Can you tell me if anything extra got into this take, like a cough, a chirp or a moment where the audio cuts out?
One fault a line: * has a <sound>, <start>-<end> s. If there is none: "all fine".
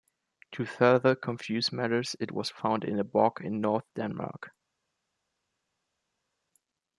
all fine